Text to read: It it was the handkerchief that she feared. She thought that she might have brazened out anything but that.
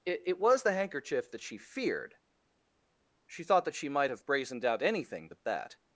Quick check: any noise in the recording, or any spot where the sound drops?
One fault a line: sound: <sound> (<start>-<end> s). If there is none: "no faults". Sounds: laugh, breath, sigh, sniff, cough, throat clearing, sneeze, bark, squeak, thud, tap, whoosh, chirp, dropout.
no faults